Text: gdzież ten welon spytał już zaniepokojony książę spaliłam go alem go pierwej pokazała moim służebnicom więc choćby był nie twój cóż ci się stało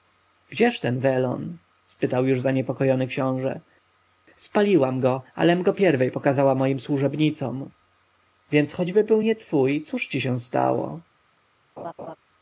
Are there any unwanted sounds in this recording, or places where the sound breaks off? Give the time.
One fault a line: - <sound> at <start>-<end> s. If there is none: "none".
- laugh at 11.8-12.2 s